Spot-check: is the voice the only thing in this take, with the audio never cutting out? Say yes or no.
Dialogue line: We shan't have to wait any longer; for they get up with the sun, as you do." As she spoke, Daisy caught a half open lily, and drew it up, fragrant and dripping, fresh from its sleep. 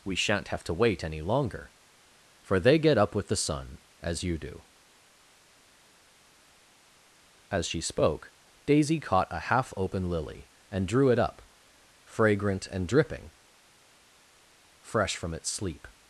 yes